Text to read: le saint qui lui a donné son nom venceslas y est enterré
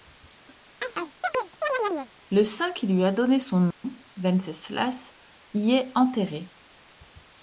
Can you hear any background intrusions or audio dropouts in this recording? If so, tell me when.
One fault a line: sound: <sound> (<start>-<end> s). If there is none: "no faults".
sound: chirp (0.8-2.1 s)
sound: dropout (3.7-3.8 s)